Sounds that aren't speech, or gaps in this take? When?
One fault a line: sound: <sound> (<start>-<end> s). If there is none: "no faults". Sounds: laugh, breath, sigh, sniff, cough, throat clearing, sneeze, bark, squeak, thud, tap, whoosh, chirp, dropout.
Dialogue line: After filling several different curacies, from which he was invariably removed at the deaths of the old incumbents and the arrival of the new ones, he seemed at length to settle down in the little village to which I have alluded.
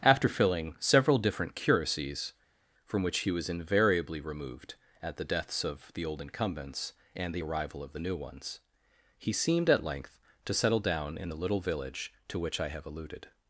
no faults